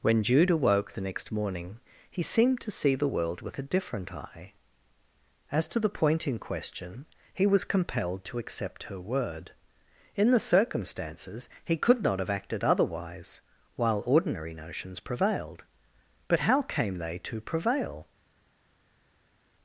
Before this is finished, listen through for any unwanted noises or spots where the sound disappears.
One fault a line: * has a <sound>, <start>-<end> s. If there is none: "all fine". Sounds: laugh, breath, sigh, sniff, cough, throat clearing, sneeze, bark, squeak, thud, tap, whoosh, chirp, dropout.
all fine